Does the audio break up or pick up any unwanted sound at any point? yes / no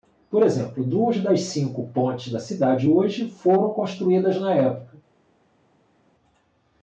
no